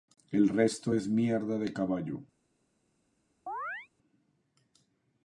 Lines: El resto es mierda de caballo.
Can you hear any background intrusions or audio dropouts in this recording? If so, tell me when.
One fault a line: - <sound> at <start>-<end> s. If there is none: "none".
- chirp at 3.5-3.9 s